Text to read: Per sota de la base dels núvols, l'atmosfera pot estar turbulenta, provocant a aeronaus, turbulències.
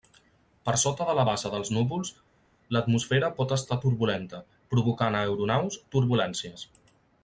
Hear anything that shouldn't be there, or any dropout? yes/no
no